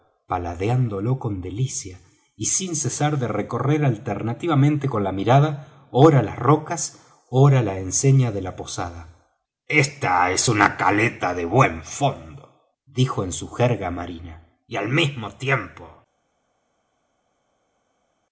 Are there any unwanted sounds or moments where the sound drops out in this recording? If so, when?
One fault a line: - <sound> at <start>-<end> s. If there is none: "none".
none